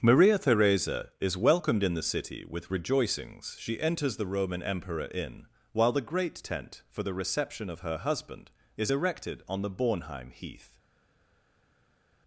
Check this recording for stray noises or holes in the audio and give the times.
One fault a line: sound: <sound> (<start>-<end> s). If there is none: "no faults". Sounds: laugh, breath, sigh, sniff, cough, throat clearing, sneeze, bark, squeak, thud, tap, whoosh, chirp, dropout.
no faults